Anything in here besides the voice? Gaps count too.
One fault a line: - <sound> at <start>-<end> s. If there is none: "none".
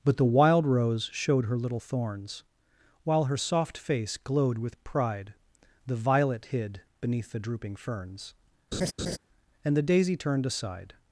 - laugh at 8.7-9.2 s